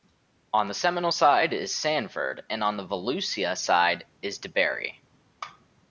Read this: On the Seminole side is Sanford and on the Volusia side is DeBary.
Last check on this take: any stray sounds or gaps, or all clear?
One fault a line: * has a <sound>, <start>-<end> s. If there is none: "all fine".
all fine